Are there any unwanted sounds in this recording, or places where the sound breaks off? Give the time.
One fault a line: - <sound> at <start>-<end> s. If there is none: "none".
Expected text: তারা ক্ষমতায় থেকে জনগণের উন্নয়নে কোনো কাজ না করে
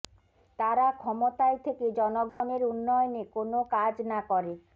- dropout at 2.3-2.4 s